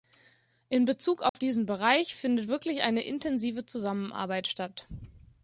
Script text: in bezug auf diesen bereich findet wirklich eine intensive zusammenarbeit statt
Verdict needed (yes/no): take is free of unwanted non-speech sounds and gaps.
no